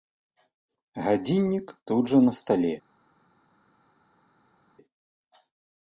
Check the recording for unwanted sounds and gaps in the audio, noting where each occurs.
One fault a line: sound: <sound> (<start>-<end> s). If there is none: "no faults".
no faults